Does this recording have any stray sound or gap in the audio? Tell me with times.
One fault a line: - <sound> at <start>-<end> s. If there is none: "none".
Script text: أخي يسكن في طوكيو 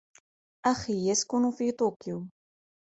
none